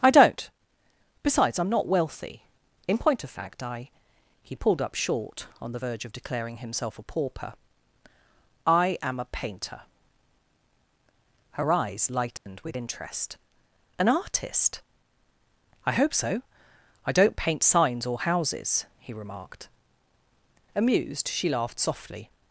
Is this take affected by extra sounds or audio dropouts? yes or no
yes